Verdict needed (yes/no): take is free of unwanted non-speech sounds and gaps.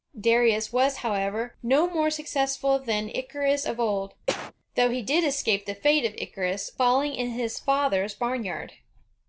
no